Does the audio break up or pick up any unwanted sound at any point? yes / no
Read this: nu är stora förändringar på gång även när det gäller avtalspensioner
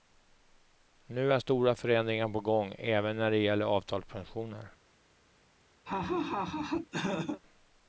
yes